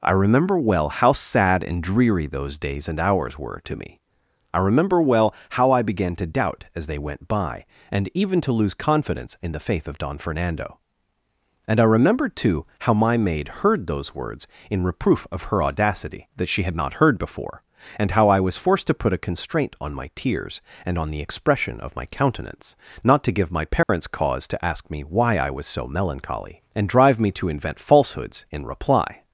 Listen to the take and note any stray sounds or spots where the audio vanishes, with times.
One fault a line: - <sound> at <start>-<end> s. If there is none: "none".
- dropout at 23.8-23.9 s